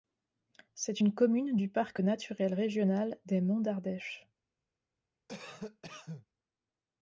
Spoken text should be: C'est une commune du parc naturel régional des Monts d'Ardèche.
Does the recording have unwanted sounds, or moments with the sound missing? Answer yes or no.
yes